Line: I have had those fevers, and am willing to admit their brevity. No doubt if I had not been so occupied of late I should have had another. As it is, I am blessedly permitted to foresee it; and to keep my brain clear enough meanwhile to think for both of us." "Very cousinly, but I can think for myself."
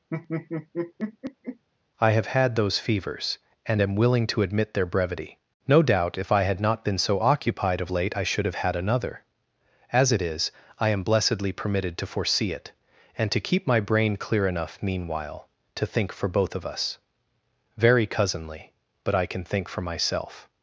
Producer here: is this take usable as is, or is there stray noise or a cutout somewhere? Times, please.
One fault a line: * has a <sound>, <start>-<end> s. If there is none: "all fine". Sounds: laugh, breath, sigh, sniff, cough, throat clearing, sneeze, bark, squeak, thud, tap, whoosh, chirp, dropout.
* has a laugh, 0.1-1.6 s